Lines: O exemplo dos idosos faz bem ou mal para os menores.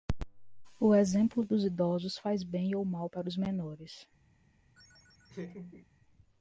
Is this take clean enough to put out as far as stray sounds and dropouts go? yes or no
no